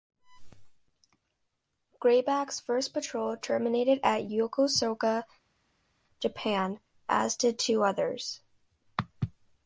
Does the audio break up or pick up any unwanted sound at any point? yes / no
no